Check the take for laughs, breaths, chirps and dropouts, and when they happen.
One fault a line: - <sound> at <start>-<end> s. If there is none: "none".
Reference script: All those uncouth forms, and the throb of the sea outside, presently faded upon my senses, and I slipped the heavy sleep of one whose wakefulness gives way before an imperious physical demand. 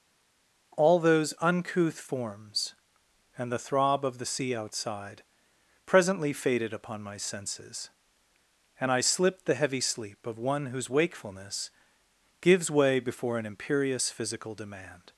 none